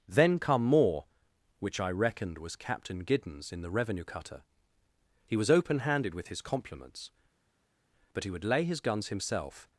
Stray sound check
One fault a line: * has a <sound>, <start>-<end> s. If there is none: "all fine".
all fine